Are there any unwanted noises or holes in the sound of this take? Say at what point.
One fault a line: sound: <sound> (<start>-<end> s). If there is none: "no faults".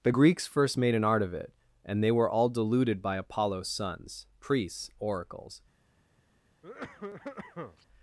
sound: cough (6.6-7.9 s)